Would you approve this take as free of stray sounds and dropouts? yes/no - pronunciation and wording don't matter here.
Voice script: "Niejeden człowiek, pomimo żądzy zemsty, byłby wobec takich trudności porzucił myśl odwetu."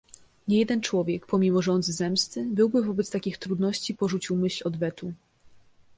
yes